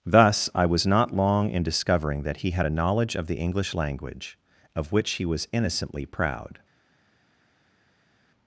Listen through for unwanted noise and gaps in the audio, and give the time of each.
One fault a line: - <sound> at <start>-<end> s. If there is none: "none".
none